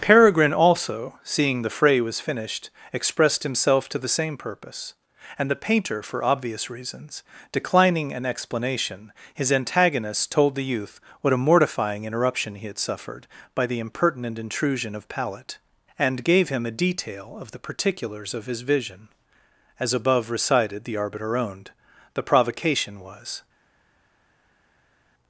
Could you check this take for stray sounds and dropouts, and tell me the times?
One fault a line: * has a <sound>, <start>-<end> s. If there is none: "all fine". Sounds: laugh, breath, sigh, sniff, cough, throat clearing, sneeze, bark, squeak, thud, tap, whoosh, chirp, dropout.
all fine